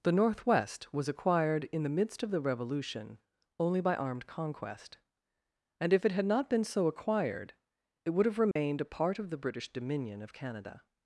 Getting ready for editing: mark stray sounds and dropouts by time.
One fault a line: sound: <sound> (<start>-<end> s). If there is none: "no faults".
sound: dropout (8.5-8.6 s)